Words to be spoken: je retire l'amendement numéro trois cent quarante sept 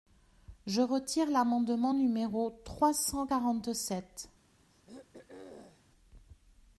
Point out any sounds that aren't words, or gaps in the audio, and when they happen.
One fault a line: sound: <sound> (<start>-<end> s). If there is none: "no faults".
sound: throat clearing (4.7-5.9 s)